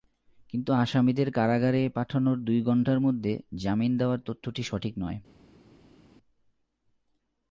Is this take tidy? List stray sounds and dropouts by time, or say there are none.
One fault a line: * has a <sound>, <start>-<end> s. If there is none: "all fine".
all fine